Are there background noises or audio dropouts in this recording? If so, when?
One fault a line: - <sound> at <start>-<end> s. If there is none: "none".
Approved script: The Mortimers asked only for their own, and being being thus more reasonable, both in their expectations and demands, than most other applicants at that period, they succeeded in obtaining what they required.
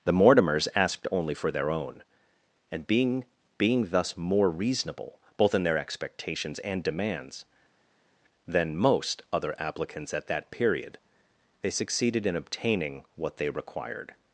none